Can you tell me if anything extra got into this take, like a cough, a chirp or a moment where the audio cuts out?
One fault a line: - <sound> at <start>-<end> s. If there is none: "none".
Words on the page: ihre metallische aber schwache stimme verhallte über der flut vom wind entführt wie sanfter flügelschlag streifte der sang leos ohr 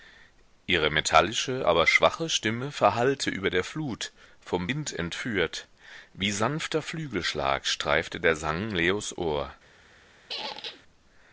- squeak at 10.3-10.8 s